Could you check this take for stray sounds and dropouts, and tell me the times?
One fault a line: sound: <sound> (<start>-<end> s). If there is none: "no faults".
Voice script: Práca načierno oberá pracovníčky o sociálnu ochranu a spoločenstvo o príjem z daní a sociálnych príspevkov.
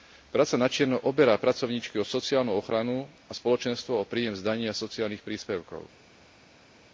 no faults